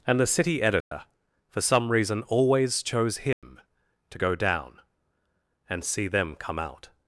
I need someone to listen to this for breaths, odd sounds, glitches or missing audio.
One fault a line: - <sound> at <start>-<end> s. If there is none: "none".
- dropout at 0.8-0.9 s
- dropout at 3.3-3.4 s